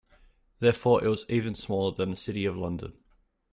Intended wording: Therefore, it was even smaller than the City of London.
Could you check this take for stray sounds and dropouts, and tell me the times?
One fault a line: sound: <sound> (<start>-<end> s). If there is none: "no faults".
no faults